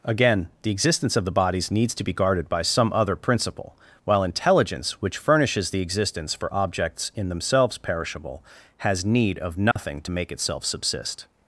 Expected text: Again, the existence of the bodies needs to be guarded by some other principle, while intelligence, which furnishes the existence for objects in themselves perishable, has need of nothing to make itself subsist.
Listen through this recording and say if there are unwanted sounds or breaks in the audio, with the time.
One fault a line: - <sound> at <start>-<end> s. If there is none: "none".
- dropout at 9.7-9.8 s